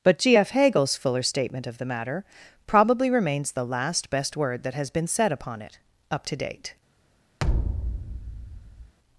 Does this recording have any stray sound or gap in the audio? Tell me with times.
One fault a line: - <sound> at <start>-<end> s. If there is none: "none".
- thud at 7.4-8.9 s